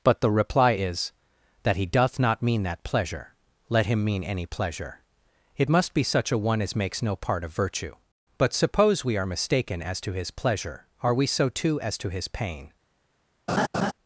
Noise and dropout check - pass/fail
fail